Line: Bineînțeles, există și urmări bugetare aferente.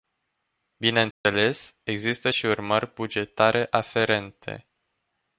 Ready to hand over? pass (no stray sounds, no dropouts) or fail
fail